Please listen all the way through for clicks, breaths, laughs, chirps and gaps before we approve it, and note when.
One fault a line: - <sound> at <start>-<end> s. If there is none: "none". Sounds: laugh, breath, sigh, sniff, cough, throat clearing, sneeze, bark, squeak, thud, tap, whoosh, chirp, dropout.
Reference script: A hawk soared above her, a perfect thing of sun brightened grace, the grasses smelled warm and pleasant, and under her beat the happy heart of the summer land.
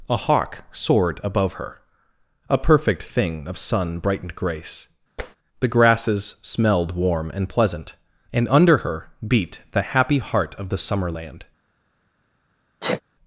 - tap at 5.2-5.4 s
- sniff at 12.8-13.0 s